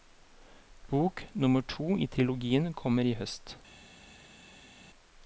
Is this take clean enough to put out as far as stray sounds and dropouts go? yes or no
yes